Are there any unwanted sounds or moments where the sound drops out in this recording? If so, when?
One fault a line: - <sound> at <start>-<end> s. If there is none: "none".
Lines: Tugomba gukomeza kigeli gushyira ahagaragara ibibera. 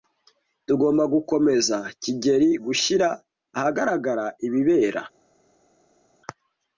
none